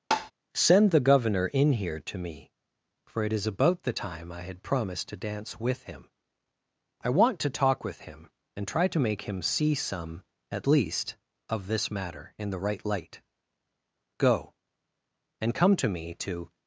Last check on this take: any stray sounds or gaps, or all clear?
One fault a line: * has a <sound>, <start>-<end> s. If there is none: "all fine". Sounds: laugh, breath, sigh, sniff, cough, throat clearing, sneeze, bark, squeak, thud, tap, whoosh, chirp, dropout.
* has a tap, 0.1-0.3 s